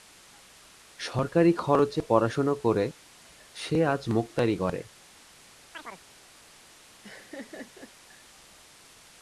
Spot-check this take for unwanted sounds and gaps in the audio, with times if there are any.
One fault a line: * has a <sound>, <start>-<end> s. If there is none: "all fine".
* has a chirp, 5.7-6.1 s
* has a laugh, 7.0-7.9 s